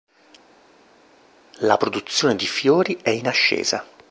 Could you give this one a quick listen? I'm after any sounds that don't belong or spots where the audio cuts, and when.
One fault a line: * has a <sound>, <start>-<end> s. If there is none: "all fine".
all fine